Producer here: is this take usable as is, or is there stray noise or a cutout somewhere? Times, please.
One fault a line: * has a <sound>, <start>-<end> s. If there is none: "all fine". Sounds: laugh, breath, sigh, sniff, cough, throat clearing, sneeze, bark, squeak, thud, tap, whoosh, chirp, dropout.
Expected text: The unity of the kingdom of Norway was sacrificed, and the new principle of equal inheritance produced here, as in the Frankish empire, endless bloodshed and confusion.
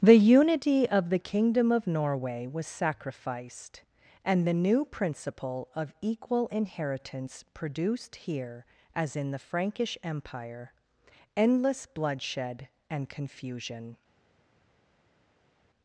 all fine